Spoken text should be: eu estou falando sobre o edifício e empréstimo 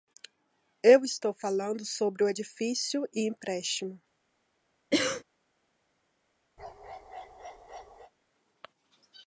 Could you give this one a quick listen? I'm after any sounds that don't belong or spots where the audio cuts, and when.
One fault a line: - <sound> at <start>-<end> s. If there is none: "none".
- cough at 4.9-5.2 s
- bark at 6.6-8.1 s